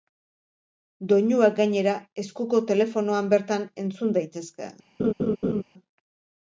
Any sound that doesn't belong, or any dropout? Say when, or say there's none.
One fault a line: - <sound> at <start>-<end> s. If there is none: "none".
- laugh at 5.0-5.6 s